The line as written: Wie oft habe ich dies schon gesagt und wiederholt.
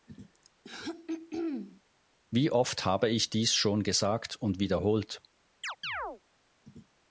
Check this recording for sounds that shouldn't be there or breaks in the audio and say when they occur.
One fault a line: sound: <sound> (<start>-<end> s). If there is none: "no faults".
sound: throat clearing (0.6-1.8 s)
sound: chirp (5.6-6.2 s)